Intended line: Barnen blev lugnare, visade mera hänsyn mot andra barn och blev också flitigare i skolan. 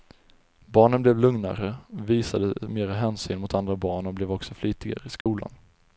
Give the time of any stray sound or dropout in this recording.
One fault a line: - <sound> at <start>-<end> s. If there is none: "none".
- dropout at 5.2-5.3 s